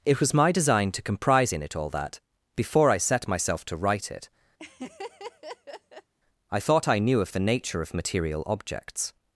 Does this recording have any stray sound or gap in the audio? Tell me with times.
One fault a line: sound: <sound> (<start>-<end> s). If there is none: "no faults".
sound: laugh (4.6-6.1 s)